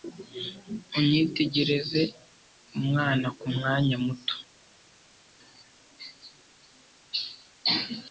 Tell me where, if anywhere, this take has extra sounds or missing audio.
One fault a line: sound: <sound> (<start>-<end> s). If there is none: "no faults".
no faults